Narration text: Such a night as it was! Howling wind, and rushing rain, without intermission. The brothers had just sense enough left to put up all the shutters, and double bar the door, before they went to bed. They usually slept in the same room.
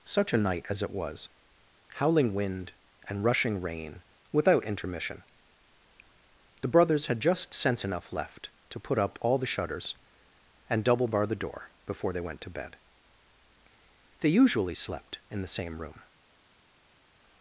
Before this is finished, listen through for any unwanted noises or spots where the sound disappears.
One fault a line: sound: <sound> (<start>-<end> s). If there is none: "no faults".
no faults